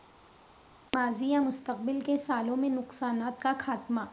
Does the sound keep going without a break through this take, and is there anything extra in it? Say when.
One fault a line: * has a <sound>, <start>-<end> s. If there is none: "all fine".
all fine